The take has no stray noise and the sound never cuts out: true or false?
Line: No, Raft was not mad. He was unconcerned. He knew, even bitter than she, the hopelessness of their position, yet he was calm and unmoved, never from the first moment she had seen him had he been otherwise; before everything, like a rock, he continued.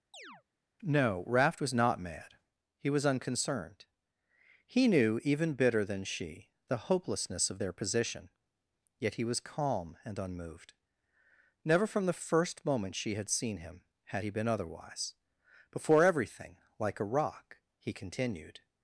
false